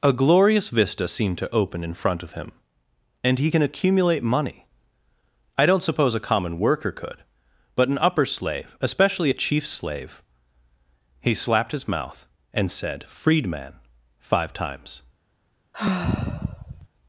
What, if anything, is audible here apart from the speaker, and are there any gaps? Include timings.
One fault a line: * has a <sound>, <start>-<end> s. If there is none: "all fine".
* has a sigh, 15.7-16.9 s